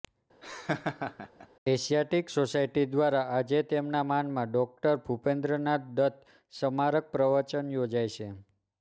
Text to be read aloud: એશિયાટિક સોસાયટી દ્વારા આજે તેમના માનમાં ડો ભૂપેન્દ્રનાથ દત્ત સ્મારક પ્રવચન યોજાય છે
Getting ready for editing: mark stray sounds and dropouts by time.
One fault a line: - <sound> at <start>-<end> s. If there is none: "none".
- laugh at 0.4-1.5 s